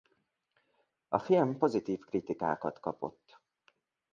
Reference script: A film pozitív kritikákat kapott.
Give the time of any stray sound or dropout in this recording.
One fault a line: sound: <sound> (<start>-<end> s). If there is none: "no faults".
no faults